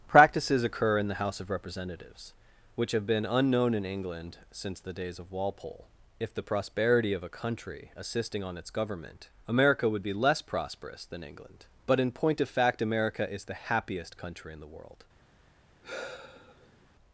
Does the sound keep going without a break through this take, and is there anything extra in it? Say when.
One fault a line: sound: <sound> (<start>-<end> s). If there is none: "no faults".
sound: sigh (15.8-16.9 s)